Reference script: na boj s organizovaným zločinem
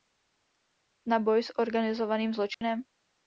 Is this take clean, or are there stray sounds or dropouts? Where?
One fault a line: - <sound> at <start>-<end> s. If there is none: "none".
- dropout at 2.5-2.6 s